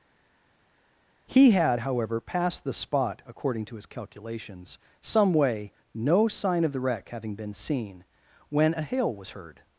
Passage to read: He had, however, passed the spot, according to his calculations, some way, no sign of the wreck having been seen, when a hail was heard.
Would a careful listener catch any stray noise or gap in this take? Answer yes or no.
no